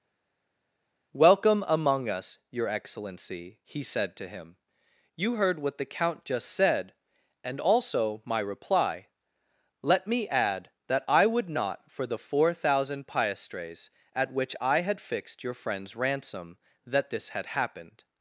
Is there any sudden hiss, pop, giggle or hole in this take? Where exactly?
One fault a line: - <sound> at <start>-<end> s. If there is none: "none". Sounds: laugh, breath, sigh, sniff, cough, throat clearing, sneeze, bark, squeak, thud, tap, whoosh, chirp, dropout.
none